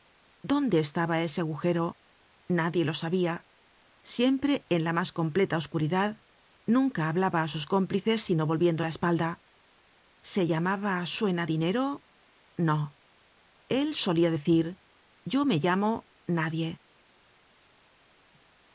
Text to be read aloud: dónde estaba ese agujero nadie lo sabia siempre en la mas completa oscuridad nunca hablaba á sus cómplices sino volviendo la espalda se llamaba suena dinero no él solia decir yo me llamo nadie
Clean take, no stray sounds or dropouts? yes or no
yes